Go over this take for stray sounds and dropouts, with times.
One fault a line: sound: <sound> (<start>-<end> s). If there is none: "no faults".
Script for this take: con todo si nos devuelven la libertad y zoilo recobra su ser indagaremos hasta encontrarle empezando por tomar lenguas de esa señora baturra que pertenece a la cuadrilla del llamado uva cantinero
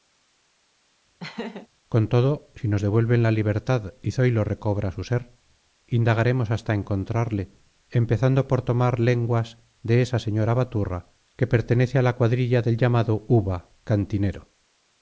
sound: laugh (1.2-1.7 s)